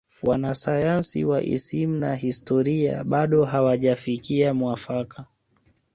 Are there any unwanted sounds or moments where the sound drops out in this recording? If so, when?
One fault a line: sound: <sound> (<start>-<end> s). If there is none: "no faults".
no faults